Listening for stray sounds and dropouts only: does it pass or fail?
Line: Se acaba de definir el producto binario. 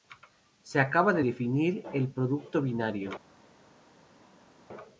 pass